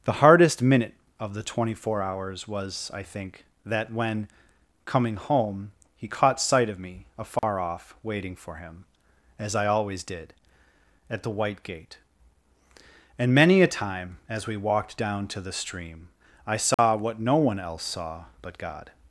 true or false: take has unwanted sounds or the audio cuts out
true